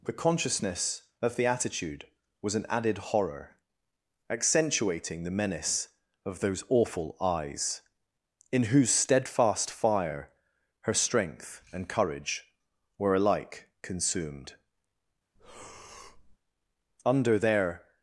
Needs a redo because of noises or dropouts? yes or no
yes